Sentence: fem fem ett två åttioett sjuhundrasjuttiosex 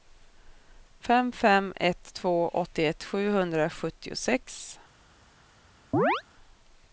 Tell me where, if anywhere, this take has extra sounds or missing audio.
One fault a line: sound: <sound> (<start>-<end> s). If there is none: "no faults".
sound: chirp (5.9-6.2 s)